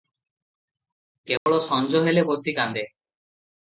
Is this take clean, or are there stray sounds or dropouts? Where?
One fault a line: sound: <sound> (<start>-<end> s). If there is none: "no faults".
sound: dropout (1.4-1.5 s)